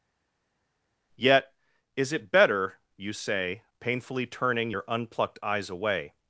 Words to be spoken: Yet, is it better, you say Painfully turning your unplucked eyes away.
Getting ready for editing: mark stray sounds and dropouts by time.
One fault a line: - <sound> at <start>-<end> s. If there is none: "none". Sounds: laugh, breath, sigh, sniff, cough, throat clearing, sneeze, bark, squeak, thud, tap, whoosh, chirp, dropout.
none